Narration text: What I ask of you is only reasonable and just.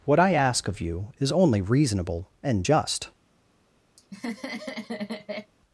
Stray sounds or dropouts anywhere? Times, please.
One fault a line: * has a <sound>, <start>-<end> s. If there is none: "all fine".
* has a laugh, 4.0-5.5 s